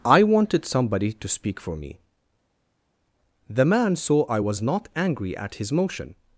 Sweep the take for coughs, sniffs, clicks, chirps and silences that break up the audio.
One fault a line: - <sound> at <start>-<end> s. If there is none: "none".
none